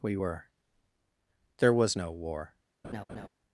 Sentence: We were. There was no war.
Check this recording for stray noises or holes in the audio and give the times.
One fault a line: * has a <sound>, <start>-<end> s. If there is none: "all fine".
* has a laugh, 2.8-3.3 s